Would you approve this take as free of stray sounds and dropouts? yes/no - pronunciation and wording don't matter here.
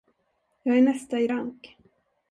yes